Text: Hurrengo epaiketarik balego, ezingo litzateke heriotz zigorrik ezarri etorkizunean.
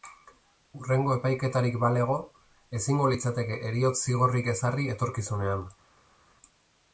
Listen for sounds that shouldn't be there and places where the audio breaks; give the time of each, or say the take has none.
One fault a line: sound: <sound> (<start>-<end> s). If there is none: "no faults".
no faults